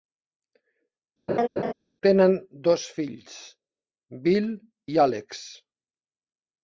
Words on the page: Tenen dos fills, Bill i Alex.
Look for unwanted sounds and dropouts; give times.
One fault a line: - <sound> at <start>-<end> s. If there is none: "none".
- laugh at 1.3-1.7 s